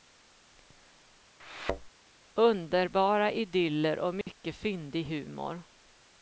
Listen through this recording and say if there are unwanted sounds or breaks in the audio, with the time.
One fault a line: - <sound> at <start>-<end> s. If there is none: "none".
- thud at 1.4-1.9 s
- dropout at 4.2-4.3 s